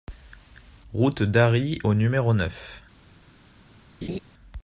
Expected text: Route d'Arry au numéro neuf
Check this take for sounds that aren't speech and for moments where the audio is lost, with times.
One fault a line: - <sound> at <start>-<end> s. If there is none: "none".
- laugh at 4.0-4.2 s